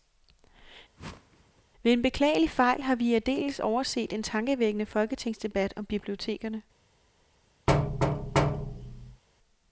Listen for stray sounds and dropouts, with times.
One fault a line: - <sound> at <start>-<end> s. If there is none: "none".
- whoosh at 1.0-1.6 s
- thud at 7.7-9.2 s